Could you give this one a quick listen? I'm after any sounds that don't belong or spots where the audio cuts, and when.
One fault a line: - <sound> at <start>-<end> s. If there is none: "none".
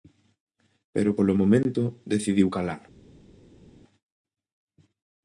none